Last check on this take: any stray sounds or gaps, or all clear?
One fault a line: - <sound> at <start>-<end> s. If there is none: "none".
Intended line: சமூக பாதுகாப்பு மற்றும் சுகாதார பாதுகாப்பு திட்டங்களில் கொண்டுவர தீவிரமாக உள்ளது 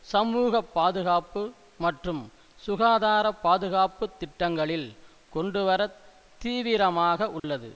- dropout at 7.4-7.4 s